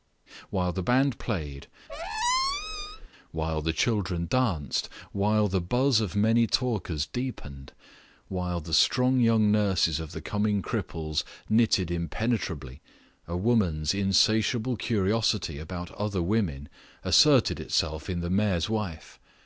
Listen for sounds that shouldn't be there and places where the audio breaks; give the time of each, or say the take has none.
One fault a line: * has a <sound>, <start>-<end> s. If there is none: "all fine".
* has a squeak, 1.9-3.1 s